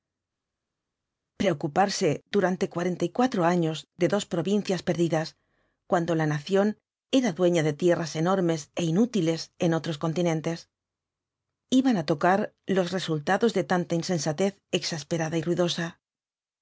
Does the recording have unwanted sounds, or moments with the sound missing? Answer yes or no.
no